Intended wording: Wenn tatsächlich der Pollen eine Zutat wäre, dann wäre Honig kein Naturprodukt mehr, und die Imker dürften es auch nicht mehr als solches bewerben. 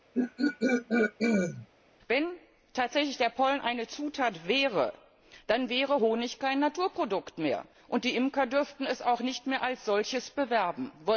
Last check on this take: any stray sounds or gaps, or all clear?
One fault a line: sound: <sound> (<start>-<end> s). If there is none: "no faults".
sound: throat clearing (0.1-1.7 s)